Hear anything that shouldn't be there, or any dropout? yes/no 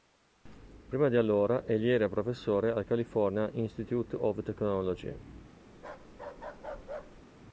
yes